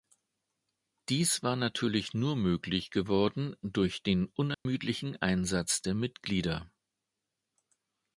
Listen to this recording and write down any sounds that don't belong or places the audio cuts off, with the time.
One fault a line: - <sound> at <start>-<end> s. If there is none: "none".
- dropout at 4.5-4.7 s